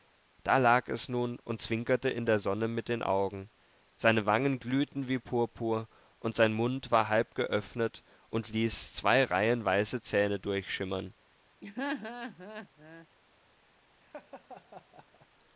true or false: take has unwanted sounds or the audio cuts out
true